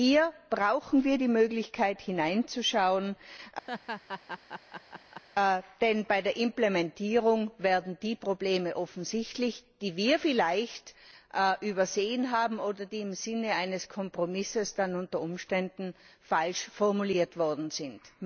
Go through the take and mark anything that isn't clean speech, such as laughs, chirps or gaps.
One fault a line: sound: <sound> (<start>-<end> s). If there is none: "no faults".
sound: laugh (3.7-5.2 s)